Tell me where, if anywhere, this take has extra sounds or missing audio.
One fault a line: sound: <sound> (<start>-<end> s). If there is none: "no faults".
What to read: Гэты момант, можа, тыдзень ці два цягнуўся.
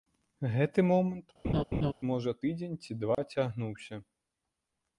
sound: laugh (1.4-1.9 s)
sound: dropout (3.1-3.2 s)